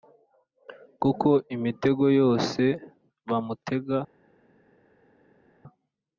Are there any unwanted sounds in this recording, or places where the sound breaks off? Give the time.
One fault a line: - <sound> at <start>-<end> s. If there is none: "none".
none